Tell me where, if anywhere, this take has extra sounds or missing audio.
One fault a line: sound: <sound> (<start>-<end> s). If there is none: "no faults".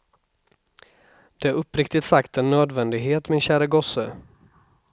no faults